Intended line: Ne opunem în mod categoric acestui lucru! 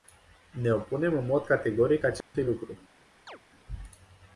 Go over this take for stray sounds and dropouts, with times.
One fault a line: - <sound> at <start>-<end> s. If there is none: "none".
- dropout at 2.2-2.3 s
- chirp at 3.3-3.4 s